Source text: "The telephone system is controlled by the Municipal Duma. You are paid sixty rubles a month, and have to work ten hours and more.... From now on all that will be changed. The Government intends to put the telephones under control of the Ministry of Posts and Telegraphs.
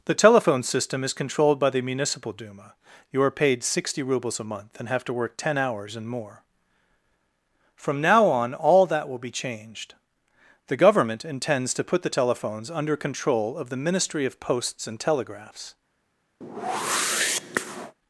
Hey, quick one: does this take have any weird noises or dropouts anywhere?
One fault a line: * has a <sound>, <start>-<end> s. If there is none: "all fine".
* has a whoosh, 16.4-17.9 s